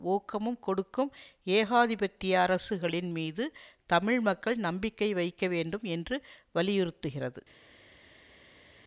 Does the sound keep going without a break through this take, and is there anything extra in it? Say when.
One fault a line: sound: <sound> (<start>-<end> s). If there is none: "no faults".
no faults